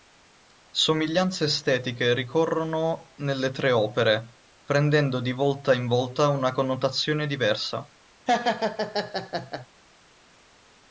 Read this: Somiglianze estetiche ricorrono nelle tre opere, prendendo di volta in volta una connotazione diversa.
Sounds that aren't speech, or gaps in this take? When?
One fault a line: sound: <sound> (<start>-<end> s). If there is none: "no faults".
sound: laugh (8.3-9.7 s)